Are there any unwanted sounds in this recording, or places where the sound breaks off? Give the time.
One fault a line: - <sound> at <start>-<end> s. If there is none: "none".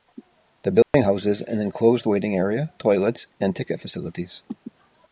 - dropout at 0.8-0.9 s